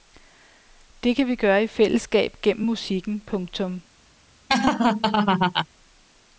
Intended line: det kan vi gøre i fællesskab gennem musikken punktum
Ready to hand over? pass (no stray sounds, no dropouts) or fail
fail